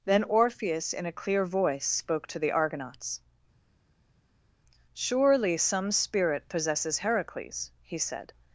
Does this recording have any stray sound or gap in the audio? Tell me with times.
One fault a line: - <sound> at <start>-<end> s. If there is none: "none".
none